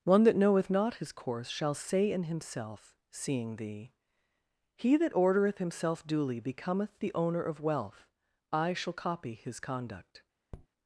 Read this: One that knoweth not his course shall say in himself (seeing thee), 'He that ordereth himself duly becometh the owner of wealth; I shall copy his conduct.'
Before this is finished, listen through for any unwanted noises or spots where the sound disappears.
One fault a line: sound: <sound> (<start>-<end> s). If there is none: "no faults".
sound: tap (10.5-10.7 s)